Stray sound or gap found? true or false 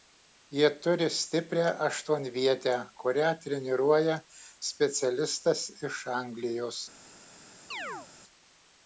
true